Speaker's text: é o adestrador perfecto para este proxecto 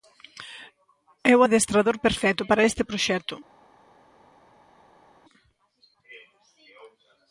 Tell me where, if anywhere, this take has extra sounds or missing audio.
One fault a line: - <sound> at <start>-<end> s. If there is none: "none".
none